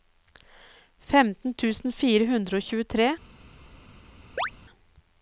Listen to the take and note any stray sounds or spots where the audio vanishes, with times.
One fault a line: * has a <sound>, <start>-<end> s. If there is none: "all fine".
* has a chirp, 4.4-4.5 s